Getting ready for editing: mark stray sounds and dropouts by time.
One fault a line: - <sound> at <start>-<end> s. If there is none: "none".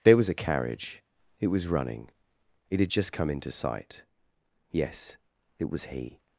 none